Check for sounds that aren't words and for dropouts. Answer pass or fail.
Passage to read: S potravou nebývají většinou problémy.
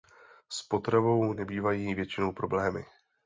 pass